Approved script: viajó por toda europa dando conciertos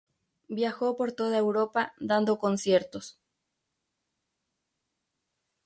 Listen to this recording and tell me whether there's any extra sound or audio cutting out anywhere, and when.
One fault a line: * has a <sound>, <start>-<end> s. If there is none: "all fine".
all fine